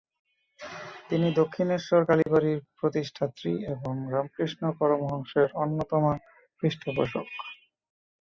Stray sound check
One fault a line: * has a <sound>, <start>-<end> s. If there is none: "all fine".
* has a dropout, 2.2-2.3 s